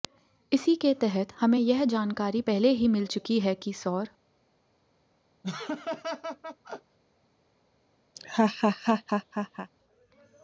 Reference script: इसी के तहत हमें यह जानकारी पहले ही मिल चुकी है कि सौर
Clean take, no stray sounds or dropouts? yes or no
no